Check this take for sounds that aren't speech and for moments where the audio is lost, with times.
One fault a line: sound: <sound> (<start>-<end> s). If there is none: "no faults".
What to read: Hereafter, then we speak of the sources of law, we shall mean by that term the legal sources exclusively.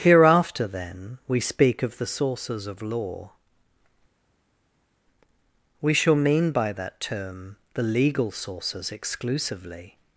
no faults